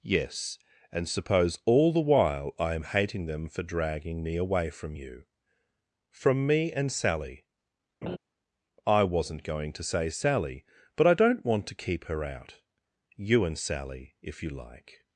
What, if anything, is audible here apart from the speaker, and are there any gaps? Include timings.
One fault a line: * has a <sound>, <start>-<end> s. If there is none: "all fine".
* has a laugh, 8.0-8.2 s